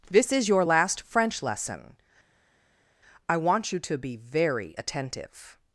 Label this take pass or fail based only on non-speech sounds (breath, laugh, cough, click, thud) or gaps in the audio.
pass